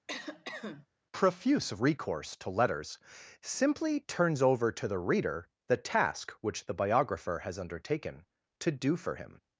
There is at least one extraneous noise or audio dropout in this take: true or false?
true